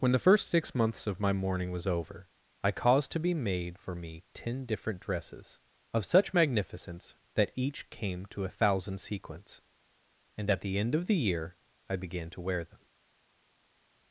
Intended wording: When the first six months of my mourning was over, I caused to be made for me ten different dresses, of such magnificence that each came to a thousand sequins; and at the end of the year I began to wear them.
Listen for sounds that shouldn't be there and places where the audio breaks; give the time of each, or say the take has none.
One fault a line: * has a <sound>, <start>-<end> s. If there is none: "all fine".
all fine